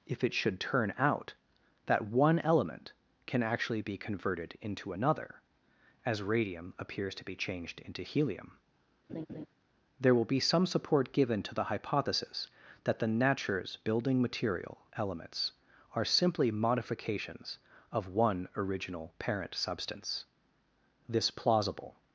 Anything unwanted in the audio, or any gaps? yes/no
yes